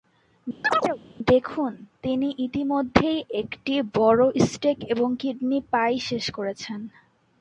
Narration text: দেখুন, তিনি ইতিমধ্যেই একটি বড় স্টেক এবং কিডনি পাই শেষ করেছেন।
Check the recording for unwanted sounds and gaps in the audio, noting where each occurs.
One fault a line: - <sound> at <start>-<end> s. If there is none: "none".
- chirp at 0.6-1.0 s